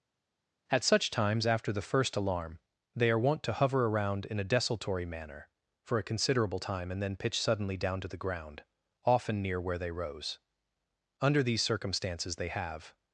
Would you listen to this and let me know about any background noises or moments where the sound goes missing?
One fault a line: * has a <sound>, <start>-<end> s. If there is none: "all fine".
all fine